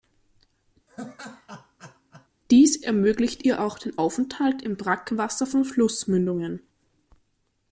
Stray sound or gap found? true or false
true